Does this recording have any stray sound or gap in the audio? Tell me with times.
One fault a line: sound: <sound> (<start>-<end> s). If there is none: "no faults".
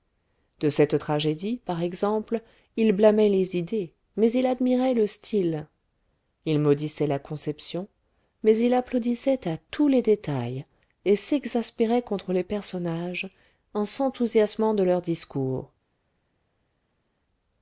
no faults